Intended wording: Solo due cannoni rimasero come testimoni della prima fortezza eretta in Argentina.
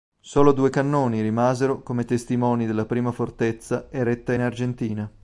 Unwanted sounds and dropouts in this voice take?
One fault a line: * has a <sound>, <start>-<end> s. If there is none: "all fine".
all fine